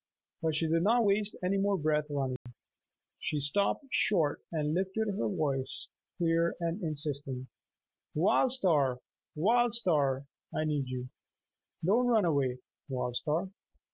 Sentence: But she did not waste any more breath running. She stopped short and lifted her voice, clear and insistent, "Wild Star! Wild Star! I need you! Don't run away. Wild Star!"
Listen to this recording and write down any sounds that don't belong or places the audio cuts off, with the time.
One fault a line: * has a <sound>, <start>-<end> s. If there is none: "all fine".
* has a dropout, 2.4-2.5 s